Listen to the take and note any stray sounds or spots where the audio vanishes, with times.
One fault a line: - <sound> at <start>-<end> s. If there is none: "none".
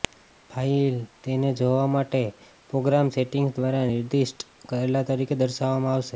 none